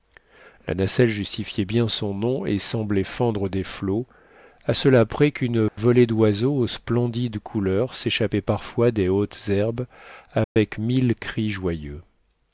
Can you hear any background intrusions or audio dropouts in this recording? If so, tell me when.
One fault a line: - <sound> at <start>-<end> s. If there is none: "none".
- dropout at 5.7-5.8 s
- dropout at 10.4-10.6 s